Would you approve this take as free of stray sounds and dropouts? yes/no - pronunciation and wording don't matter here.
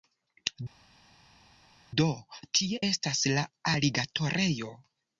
yes